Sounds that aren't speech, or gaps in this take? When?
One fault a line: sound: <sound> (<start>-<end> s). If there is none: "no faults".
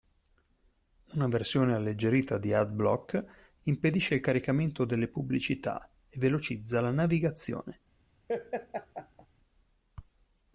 sound: laugh (8.3-9.3 s)